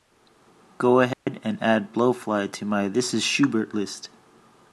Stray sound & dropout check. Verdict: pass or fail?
fail